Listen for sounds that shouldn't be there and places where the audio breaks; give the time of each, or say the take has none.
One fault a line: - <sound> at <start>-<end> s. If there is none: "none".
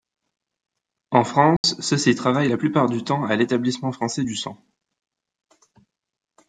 - dropout at 1.6-1.6 s